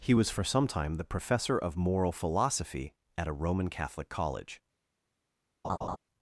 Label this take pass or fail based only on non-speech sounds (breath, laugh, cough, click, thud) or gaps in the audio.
fail